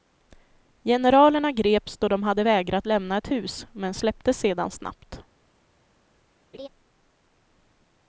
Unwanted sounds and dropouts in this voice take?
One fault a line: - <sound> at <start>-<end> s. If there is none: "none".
- laugh at 6.5-6.7 s